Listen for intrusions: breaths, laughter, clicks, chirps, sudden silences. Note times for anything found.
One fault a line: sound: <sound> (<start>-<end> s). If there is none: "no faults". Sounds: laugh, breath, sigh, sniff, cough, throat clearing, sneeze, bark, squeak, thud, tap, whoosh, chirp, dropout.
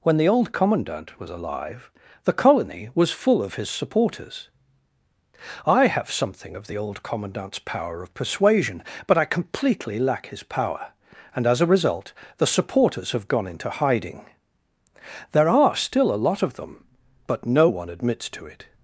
no faults